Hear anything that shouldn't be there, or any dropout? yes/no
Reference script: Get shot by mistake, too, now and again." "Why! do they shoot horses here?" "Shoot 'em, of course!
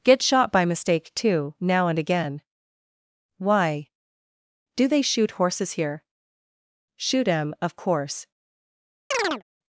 yes